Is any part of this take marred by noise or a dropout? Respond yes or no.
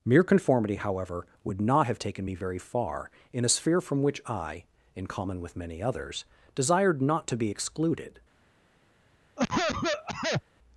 yes